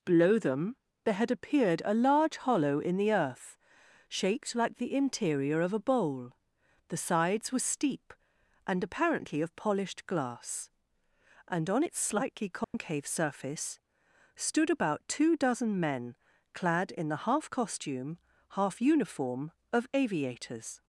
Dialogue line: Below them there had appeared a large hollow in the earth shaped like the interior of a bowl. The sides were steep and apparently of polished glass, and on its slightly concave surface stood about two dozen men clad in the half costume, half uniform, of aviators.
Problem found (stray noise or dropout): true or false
true